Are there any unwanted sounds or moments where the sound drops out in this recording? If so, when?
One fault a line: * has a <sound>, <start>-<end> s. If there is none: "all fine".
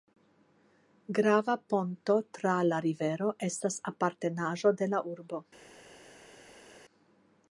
all fine